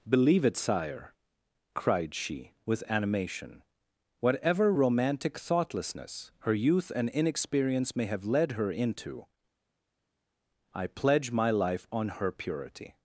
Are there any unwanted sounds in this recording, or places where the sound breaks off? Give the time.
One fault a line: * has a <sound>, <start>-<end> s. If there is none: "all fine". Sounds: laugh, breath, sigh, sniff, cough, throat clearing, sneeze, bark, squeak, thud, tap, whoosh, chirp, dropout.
all fine